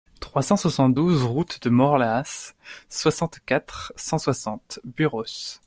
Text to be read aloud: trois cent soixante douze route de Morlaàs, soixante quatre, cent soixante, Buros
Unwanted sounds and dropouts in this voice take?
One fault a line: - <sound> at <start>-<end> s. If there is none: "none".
none